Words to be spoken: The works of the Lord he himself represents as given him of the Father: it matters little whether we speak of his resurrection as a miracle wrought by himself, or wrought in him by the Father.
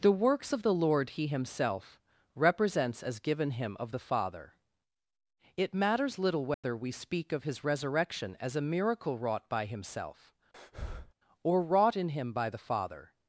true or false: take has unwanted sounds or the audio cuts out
true